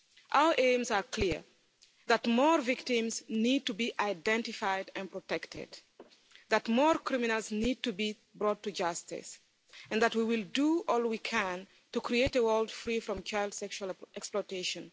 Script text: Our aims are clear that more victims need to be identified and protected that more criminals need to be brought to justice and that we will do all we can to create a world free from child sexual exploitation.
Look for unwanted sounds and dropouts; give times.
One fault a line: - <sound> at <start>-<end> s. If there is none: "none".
none